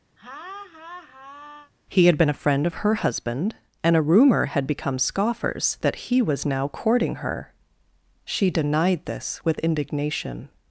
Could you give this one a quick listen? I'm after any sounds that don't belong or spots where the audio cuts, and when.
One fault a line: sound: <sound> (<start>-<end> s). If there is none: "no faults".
sound: laugh (0.2-1.7 s)